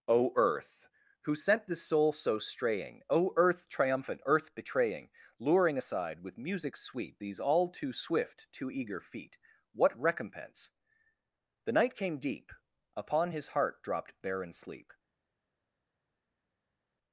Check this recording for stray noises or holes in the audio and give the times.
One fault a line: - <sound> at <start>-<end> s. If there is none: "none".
none